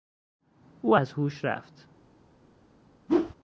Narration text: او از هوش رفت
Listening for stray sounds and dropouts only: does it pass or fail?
fail